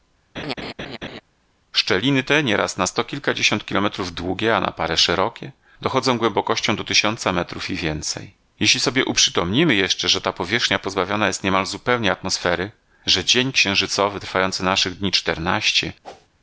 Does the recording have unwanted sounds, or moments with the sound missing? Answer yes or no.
yes